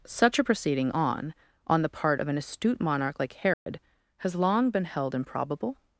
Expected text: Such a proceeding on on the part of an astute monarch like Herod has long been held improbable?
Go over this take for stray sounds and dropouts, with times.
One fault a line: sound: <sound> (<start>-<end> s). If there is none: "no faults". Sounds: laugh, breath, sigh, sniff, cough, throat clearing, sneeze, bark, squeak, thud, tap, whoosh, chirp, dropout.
sound: dropout (3.5-3.7 s)